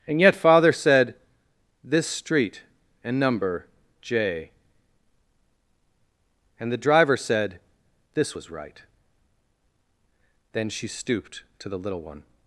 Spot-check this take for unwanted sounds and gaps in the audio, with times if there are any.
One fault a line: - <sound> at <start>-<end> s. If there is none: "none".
none